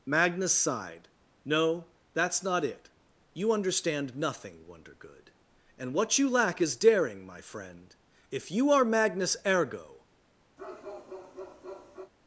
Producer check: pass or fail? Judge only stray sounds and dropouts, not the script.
fail